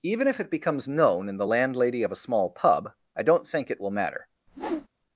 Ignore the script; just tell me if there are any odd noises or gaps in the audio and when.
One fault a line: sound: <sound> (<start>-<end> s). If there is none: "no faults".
sound: whoosh (4.5-4.9 s)